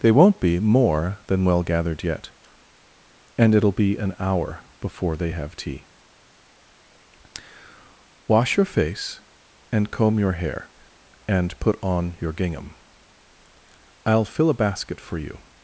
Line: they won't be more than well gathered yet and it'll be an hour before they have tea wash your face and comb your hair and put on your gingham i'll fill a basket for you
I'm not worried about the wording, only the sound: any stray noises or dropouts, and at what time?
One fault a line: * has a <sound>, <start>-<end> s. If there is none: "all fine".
all fine